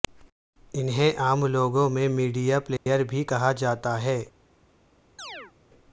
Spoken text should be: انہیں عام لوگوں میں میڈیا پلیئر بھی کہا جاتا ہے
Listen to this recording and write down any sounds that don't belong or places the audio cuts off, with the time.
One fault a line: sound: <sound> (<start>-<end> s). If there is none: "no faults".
sound: dropout (2.8-2.9 s)
sound: chirp (5.2-5.5 s)